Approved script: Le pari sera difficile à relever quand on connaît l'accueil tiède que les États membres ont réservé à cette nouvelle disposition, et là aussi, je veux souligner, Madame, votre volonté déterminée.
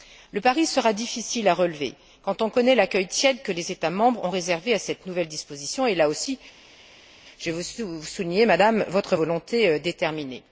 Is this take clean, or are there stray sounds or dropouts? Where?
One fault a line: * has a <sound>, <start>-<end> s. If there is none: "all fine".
all fine